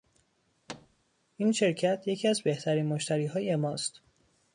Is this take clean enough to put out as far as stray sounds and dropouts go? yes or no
no